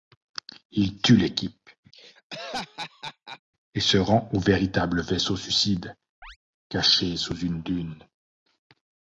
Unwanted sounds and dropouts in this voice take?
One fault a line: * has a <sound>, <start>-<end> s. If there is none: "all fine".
* has a laugh, 1.9-3.4 s
* has a chirp, 6.2-6.4 s